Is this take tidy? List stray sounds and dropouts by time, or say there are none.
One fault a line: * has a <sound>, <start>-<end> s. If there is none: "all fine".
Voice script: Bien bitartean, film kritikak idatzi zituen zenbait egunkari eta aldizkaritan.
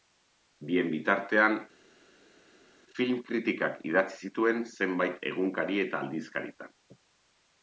all fine